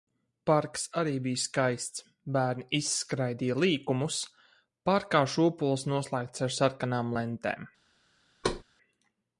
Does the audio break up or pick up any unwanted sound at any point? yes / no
yes